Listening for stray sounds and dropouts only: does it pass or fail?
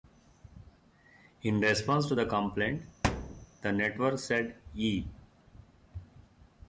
fail